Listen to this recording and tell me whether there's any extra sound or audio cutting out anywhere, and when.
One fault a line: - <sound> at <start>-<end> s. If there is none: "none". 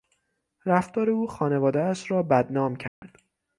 - dropout at 2.9-3.0 s